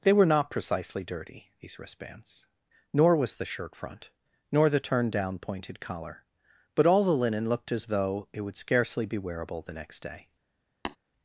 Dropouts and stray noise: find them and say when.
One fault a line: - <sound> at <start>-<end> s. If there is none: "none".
- tap at 10.8-11.0 s